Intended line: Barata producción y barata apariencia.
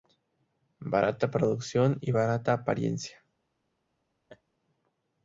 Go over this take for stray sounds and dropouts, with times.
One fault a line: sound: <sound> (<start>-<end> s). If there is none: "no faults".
sound: laugh (4.3-4.4 s)